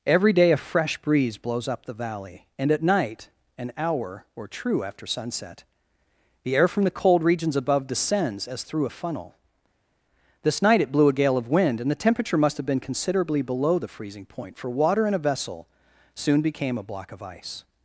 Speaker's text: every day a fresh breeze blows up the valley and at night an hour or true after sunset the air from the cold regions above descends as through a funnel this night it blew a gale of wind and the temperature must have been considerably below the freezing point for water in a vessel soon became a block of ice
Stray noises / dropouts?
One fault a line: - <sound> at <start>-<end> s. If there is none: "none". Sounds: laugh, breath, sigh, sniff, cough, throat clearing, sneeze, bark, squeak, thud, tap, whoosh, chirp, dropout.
none